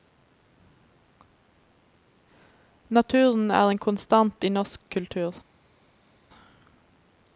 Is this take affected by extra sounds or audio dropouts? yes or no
no